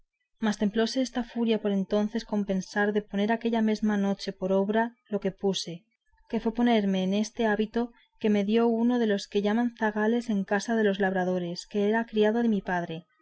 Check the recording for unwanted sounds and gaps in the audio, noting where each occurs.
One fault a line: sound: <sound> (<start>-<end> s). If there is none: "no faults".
no faults